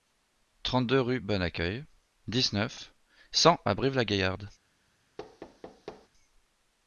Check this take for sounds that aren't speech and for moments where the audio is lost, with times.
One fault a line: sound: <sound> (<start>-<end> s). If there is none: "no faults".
sound: thud (5.2-6.1 s)